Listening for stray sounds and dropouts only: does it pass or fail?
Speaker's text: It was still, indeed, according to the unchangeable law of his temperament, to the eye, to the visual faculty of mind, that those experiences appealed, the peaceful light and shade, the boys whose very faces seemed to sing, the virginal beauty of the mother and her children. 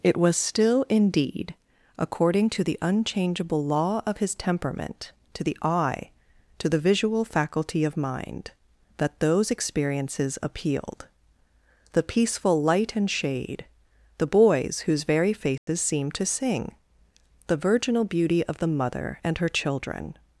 fail